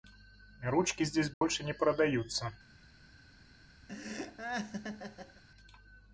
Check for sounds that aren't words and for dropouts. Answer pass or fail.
fail